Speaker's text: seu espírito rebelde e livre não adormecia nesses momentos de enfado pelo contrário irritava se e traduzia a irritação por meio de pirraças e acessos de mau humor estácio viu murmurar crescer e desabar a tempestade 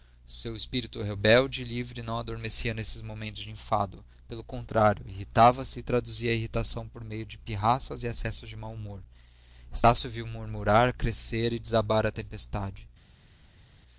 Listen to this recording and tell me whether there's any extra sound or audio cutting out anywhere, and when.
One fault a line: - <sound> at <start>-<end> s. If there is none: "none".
none